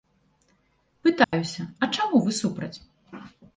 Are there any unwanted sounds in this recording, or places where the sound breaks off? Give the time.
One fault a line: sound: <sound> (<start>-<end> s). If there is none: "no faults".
sound: dropout (1.2-1.3 s)